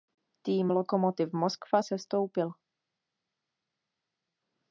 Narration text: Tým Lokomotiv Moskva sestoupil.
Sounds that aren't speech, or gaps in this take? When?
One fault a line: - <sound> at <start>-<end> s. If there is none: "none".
none